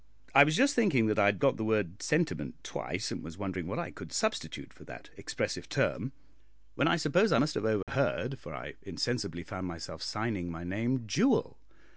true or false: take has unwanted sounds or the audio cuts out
true